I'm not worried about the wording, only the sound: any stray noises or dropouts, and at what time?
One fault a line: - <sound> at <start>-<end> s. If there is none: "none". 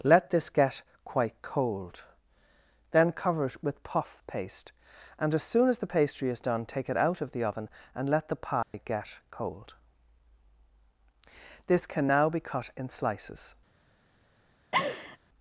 - dropout at 8.6-8.7 s
- laugh at 14.7-15.2 s